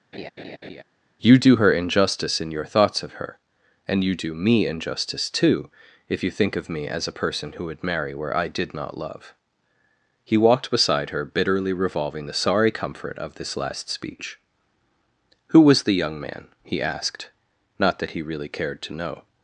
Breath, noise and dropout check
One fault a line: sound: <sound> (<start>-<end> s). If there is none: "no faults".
sound: laugh (0.1-0.8 s)